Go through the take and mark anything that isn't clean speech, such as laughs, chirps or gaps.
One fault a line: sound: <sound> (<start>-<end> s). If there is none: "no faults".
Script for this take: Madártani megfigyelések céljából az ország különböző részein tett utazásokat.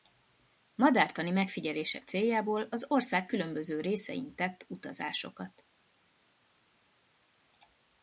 no faults